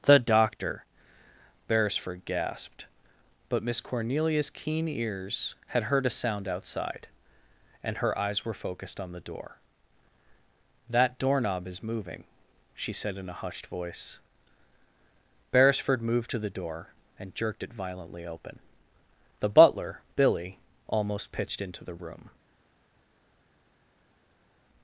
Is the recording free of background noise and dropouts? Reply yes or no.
yes